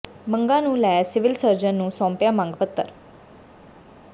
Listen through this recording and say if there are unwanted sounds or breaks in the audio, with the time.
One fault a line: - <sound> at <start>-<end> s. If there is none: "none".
none